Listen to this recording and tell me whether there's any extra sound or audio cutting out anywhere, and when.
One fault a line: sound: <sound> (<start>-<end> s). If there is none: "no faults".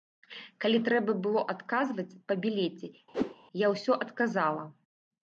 sound: whoosh (3.1-3.4 s)